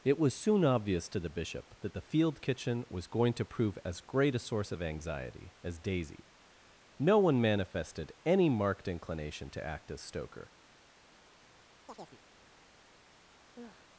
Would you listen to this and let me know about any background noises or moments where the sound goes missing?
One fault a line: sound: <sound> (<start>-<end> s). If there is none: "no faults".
sound: chirp (11.9-12.2 s)
sound: sigh (13.5-14.0 s)